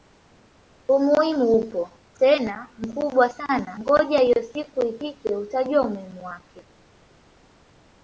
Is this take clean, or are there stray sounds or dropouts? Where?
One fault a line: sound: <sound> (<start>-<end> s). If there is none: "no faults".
no faults